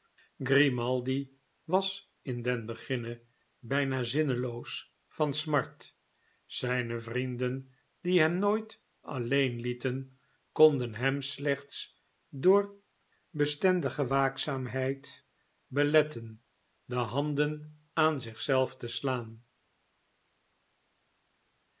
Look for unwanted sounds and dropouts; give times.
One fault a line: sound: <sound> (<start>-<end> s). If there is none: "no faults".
no faults